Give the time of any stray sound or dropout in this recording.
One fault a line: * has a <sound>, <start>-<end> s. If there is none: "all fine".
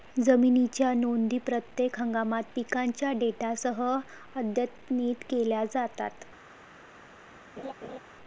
* has a laugh, 7.6-8.0 s